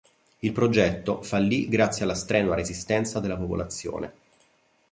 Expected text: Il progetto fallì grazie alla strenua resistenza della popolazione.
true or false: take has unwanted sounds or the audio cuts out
false